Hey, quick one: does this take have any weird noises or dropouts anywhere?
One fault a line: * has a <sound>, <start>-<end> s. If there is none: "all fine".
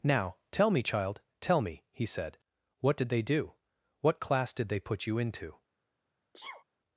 * has a sneeze, 6.3-6.6 s